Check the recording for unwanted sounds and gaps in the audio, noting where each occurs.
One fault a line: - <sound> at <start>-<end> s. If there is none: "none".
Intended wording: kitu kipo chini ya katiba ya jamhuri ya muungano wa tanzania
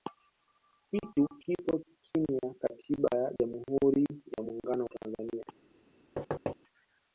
- thud at 6.2-6.6 s